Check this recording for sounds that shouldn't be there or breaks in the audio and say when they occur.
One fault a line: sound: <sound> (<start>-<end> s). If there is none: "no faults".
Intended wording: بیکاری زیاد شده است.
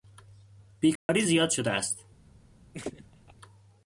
sound: dropout (1.0-1.1 s)
sound: laugh (2.7-3.3 s)